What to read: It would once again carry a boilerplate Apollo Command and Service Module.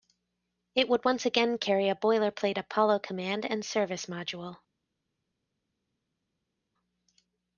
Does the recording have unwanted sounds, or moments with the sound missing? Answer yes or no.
no